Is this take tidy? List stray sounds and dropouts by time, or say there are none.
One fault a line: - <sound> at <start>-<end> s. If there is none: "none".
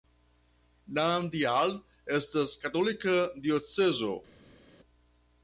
none